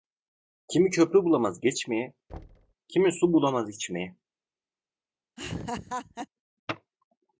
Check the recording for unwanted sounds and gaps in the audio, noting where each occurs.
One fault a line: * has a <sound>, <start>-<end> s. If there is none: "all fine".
* has a thud, 2.3-2.7 s
* has a laugh, 5.4-6.3 s